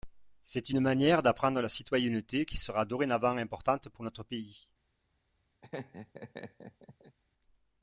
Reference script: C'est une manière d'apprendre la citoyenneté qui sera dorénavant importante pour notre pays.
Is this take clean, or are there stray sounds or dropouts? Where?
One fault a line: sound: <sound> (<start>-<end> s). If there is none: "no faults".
sound: laugh (5.6-7.2 s)